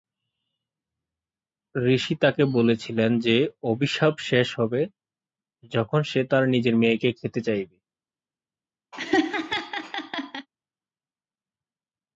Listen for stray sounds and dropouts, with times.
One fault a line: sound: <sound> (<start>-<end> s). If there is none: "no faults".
sound: laugh (8.9-10.5 s)